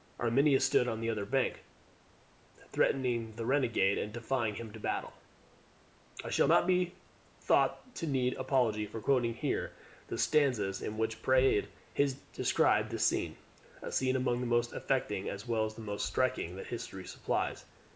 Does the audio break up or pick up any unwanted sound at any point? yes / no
no